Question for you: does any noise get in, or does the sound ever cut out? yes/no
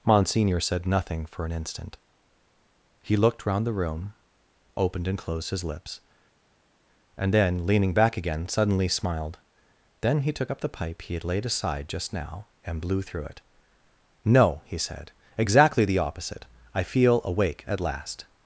no